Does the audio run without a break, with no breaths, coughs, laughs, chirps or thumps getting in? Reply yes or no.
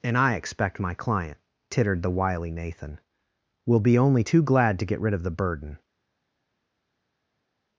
yes